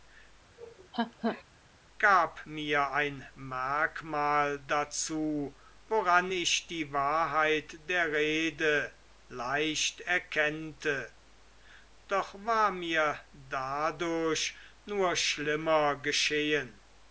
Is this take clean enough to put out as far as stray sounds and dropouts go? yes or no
no